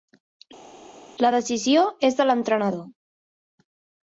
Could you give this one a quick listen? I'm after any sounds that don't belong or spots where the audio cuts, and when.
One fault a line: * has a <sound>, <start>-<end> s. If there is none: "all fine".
all fine